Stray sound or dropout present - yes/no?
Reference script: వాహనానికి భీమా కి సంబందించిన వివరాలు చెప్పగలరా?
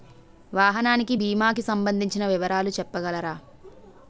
no